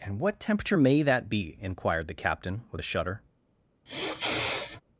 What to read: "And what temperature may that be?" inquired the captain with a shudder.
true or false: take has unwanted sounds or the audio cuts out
true